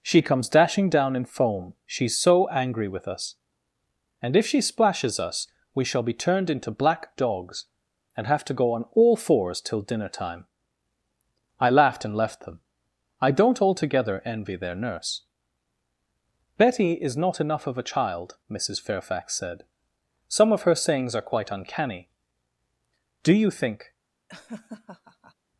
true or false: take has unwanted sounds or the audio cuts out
true